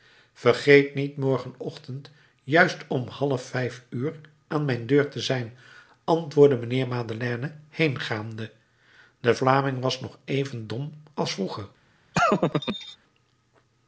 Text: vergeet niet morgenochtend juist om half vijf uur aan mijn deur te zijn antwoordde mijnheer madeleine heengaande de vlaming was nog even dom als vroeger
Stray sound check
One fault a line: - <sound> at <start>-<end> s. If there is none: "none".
- laugh at 12.1-13.0 s